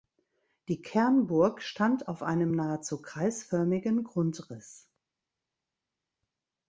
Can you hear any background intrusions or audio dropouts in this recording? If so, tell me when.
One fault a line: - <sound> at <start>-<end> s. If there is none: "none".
none